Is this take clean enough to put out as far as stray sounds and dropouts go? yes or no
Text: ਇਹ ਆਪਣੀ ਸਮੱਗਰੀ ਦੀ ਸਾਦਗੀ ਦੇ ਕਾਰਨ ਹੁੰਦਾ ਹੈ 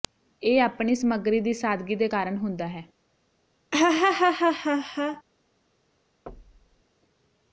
no